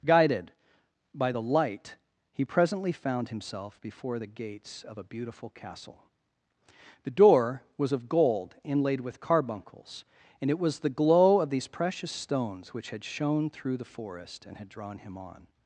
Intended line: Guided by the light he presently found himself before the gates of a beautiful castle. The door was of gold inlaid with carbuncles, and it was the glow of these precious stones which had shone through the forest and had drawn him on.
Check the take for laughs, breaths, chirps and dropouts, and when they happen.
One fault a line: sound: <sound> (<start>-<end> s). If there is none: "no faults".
no faults